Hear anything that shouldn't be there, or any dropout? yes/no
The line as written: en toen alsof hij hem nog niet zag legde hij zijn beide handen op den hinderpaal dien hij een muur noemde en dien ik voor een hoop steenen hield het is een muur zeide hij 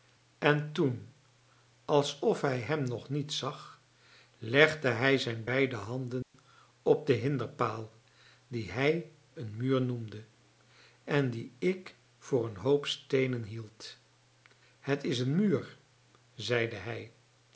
yes